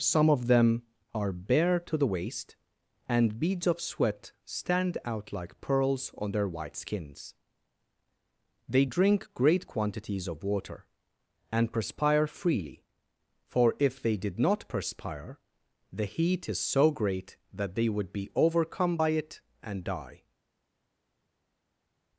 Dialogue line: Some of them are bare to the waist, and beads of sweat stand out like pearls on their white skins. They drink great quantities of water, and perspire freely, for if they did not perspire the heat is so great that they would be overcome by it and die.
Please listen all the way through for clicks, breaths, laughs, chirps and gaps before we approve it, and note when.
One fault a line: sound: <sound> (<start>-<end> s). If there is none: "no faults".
no faults